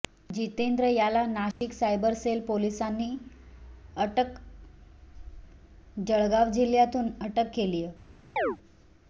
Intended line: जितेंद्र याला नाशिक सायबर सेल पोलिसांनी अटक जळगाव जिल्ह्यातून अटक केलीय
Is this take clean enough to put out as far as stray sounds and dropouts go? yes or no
no